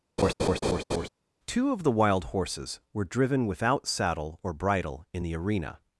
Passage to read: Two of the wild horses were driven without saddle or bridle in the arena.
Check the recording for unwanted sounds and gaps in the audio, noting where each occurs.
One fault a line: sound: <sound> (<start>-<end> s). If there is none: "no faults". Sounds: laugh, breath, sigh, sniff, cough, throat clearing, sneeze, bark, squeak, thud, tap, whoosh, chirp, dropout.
sound: laugh (0.2-1.1 s)